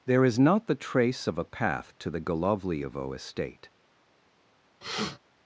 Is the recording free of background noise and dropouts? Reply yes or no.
no